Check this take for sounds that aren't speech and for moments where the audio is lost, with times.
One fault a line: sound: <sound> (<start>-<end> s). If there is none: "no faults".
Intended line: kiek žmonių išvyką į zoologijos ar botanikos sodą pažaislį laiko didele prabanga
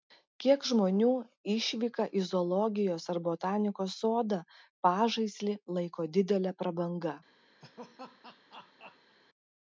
sound: laugh (7.6-9.2 s)